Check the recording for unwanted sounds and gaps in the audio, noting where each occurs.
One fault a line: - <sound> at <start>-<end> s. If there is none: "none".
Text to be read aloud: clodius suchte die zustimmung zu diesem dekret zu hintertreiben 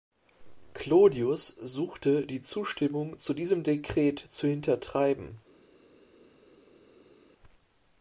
none